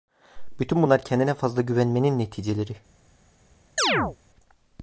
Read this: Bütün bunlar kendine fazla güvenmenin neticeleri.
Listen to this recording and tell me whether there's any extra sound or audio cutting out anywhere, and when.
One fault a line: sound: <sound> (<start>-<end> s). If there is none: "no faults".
sound: chirp (3.8-4.2 s)